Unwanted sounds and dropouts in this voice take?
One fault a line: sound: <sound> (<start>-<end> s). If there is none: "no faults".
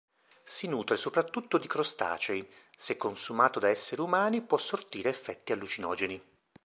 no faults